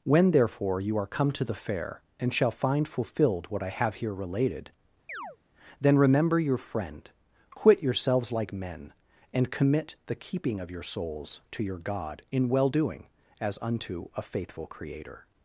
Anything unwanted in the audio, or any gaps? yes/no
yes